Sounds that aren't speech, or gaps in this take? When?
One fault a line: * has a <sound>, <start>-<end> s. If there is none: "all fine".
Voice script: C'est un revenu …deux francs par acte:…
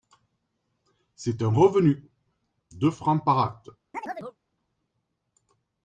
* has a chirp, 3.9-4.4 s